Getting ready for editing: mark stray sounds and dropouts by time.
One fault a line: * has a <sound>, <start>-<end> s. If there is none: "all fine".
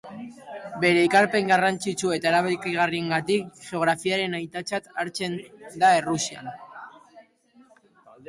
all fine